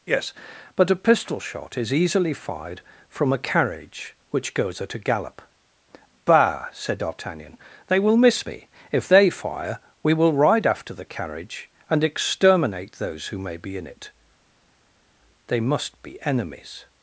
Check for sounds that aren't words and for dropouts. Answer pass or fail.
pass